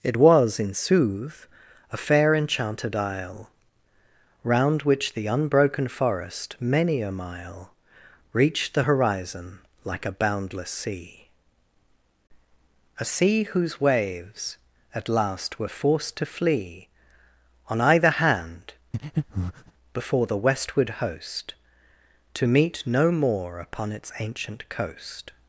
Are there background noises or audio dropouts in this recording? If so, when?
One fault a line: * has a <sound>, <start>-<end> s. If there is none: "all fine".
* has a breath, 18.9-19.7 s